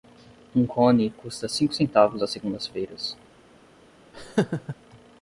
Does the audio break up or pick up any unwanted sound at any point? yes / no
yes